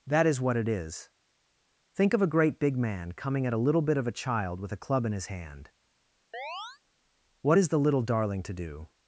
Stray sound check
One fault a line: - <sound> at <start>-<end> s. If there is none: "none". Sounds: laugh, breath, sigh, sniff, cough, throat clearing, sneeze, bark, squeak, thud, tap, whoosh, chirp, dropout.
- chirp at 6.3-6.8 s